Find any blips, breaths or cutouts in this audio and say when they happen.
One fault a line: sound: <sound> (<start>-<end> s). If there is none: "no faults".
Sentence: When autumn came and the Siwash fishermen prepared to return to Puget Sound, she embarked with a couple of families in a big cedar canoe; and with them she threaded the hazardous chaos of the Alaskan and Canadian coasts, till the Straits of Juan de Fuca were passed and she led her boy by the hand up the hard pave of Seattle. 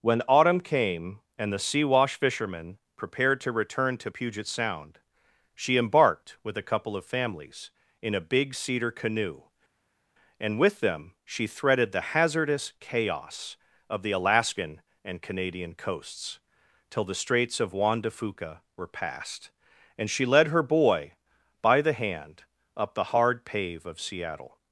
no faults